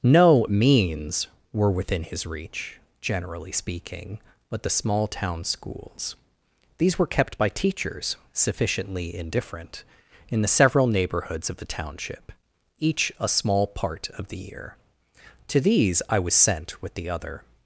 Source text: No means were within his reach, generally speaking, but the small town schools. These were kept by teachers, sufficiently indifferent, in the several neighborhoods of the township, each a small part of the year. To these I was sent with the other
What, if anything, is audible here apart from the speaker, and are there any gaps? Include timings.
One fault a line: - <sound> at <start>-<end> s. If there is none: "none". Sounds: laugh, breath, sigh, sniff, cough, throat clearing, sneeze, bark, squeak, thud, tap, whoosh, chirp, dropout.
none